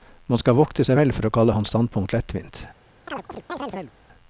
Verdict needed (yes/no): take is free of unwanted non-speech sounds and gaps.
no